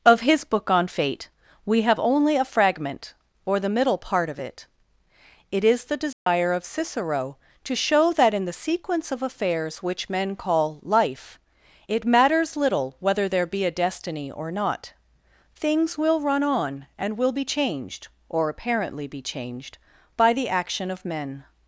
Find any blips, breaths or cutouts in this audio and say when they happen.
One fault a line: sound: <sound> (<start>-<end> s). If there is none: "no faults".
sound: dropout (6.1-6.3 s)